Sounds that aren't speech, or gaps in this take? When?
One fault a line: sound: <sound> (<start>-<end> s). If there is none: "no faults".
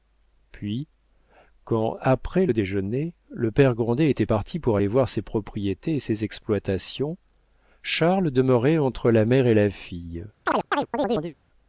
sound: chirp (10.5-11.4 s)